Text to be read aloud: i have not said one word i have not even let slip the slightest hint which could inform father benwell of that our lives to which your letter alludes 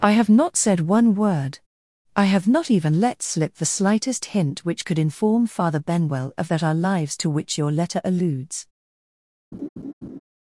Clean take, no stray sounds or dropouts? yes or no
no